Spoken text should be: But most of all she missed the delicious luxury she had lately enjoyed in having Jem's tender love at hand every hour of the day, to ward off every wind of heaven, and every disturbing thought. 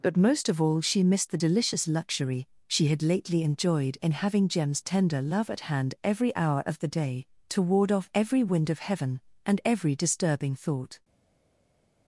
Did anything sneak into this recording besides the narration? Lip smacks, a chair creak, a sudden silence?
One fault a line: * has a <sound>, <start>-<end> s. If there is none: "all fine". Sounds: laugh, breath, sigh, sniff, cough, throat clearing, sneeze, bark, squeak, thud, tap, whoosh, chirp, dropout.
all fine